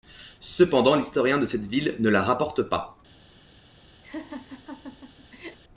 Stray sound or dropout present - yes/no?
yes